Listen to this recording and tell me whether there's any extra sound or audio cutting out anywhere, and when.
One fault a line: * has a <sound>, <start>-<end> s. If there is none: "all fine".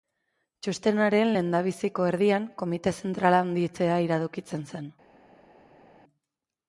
all fine